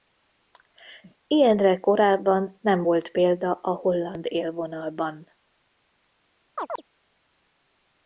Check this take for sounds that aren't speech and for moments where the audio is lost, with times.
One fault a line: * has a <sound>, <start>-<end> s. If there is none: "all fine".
* has a chirp, 6.6-6.8 s